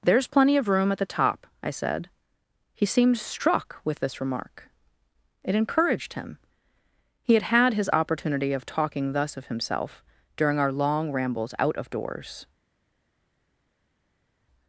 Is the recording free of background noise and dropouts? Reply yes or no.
yes